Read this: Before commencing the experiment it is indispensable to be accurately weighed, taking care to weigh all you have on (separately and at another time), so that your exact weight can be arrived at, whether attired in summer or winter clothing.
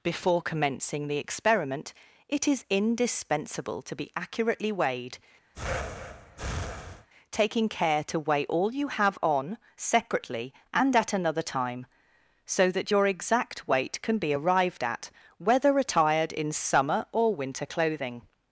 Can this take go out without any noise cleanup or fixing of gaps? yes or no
no